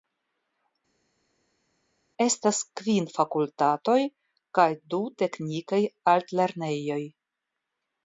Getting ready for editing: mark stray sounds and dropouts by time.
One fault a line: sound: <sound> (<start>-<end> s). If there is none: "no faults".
no faults